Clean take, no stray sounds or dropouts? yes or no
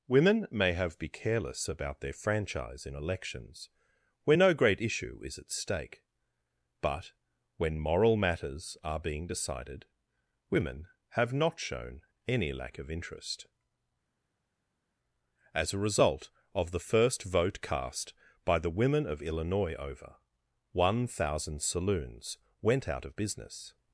yes